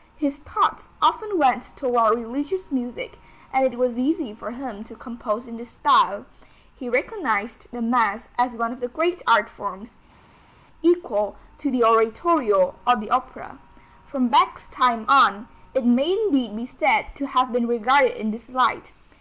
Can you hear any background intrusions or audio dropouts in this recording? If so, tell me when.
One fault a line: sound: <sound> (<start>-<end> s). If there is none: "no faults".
no faults